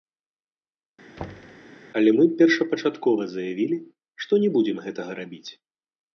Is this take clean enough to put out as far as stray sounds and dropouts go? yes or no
no